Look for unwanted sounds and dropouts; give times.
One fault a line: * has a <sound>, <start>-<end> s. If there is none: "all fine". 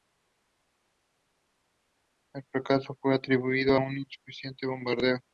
all fine